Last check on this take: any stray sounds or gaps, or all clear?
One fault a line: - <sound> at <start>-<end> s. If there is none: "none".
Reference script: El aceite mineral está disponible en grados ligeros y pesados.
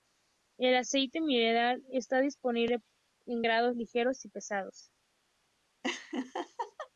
- laugh at 5.8-6.9 s